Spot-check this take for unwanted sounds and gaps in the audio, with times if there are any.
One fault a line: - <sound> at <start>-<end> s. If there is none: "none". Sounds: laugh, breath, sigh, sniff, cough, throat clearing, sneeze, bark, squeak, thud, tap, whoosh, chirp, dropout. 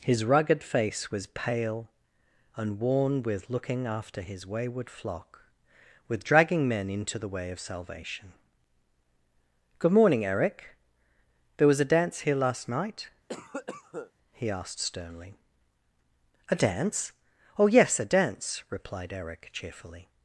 - cough at 13.3-14.1 s